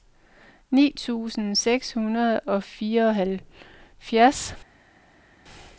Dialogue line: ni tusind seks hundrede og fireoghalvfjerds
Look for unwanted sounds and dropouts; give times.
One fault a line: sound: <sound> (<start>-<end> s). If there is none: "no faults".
no faults